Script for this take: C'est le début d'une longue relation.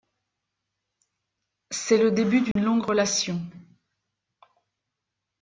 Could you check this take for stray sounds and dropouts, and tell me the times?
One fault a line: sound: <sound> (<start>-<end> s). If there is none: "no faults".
sound: dropout (2.5-2.6 s)